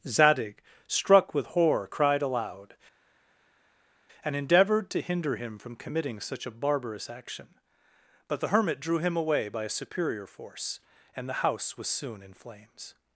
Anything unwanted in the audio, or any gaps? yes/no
no